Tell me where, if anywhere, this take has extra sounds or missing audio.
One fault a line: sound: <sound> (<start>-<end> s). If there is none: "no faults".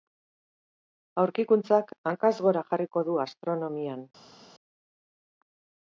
no faults